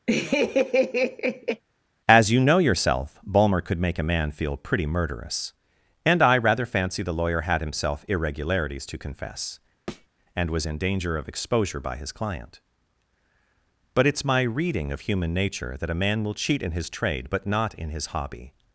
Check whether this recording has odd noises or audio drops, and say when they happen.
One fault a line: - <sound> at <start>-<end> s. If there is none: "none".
- laugh at 0.1-1.6 s
- thud at 9.9-10.1 s